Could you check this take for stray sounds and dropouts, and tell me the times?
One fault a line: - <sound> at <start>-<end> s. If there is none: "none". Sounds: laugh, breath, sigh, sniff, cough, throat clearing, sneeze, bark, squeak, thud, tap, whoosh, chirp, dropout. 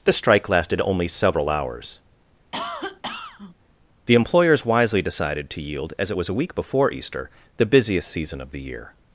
- cough at 2.5-3.5 s